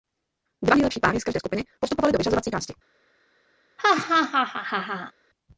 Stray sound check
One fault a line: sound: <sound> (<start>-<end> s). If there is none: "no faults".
sound: laugh (3.8-5.1 s)